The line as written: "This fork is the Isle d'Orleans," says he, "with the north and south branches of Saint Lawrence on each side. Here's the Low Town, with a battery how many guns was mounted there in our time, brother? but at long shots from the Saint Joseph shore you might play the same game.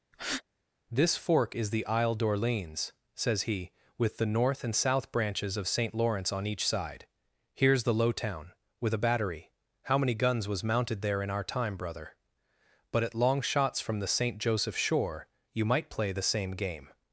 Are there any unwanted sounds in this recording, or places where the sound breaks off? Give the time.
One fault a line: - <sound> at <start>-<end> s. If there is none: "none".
- breath at 0.1-0.4 s